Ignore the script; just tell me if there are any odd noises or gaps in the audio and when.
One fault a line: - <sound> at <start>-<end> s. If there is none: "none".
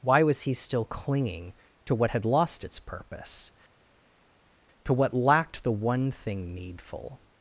none